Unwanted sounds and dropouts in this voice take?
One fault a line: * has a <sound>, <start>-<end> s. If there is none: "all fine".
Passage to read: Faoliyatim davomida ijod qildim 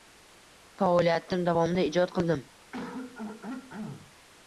* has a throat clearing, 2.7-4.2 s